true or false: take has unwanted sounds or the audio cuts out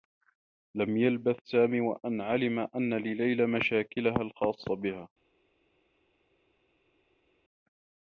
false